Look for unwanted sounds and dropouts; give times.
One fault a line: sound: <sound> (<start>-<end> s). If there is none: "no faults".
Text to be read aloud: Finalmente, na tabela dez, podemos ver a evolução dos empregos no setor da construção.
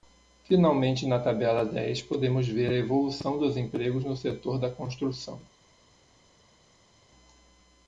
no faults